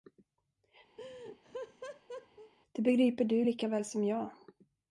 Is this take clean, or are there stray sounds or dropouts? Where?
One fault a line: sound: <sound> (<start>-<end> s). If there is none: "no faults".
sound: laugh (1.0-2.5 s)